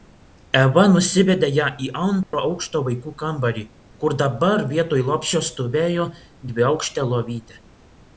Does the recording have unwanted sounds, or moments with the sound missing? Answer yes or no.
yes